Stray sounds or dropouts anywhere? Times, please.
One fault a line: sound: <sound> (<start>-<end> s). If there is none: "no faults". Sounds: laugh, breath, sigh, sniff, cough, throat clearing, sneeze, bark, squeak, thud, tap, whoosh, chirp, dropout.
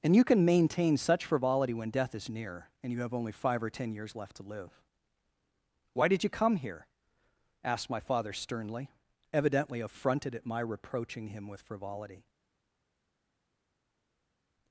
no faults